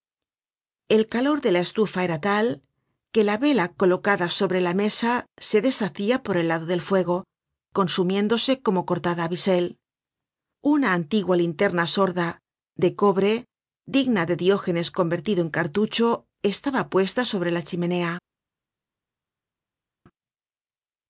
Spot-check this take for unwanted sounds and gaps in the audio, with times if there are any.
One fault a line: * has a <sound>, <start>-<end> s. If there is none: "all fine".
all fine